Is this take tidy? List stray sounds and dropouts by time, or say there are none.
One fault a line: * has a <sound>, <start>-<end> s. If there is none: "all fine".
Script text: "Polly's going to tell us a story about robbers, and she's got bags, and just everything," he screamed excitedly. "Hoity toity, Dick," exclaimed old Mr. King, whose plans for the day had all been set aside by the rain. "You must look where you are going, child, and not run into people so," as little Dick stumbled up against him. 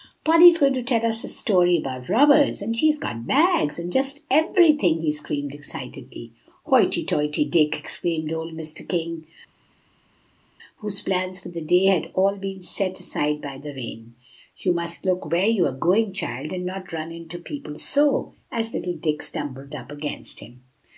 all fine